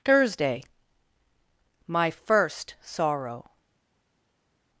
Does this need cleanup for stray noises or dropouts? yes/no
no